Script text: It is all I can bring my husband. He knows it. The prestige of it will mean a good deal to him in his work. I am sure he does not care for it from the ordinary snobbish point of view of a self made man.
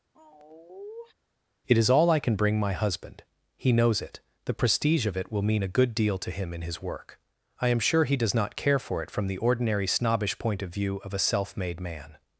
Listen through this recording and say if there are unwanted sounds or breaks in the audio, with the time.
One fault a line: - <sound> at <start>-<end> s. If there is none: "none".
- sigh at 0.1-1.1 s